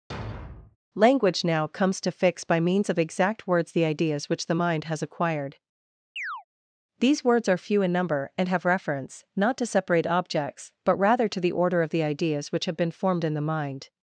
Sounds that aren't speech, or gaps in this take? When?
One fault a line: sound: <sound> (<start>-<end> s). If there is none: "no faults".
sound: thud (0.1-0.8 s)
sound: chirp (6.2-6.4 s)